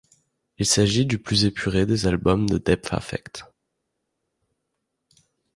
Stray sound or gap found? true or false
false